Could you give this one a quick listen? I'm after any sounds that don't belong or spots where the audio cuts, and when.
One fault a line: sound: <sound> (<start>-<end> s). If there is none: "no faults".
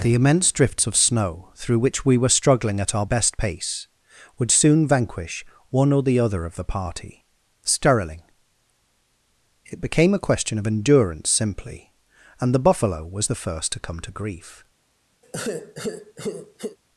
sound: sigh (15.2-16.8 s)